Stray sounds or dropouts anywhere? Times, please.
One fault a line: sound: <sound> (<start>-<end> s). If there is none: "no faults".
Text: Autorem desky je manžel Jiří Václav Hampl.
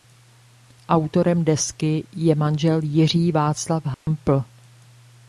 sound: dropout (3.9-4.1 s)